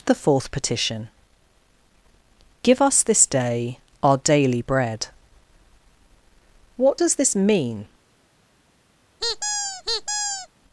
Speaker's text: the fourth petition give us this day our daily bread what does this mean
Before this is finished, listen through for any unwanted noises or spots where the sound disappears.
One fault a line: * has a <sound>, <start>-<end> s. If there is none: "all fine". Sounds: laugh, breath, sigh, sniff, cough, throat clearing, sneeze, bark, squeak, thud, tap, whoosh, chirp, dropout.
* has a squeak, 9.2-10.5 s